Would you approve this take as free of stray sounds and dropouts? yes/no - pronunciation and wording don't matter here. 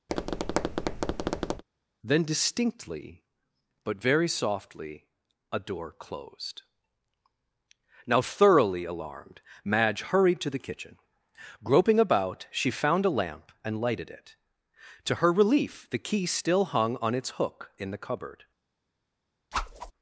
no